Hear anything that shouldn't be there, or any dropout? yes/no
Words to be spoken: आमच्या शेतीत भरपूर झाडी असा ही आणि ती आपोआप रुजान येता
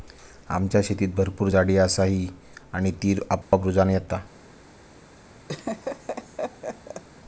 yes